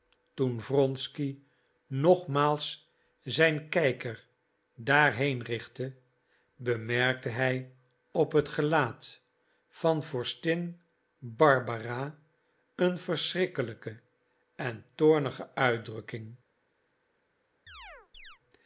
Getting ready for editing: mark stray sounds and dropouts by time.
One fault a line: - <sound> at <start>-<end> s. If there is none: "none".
- chirp at 17.7-18.4 s